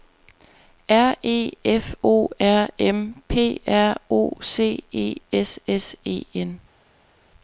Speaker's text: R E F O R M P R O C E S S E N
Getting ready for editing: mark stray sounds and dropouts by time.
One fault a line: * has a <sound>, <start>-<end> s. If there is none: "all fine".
all fine